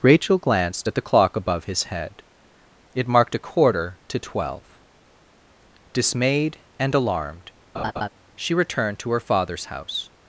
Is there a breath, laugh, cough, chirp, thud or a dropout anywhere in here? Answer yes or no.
yes